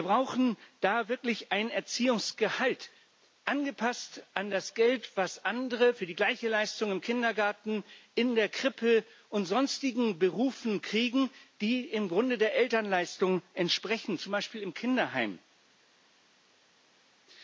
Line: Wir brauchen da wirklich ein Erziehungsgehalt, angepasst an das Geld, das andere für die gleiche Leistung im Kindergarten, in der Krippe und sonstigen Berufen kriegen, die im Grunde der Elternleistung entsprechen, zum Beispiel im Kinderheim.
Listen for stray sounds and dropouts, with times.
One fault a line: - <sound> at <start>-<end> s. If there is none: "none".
none